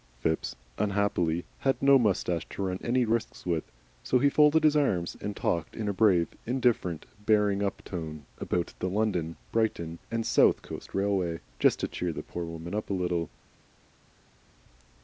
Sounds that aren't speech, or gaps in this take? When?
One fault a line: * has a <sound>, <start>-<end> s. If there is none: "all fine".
all fine